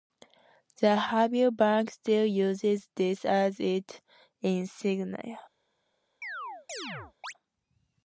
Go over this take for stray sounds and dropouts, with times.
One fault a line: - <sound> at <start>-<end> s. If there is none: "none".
- chirp at 6.2-7.3 s